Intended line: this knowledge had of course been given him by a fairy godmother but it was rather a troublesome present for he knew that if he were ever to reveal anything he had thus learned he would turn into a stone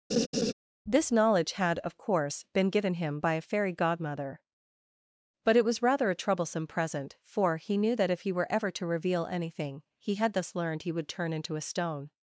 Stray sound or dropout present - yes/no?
yes